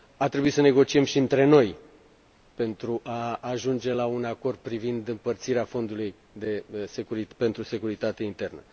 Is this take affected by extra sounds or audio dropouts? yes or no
no